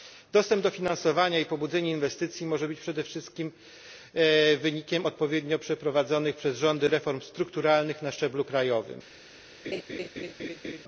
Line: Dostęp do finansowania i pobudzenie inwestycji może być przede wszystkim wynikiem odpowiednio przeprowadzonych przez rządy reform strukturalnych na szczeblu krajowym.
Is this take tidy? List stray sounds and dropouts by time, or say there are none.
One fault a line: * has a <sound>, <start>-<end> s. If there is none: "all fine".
* has a laugh, 9.6-10.8 s